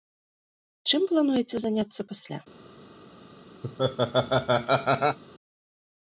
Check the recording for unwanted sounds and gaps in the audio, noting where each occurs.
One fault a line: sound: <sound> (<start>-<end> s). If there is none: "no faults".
sound: laugh (3.6-5.2 s)